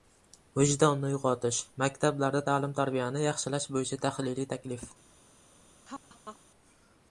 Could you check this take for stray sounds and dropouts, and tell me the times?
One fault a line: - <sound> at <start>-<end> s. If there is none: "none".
- laugh at 5.9-6.4 s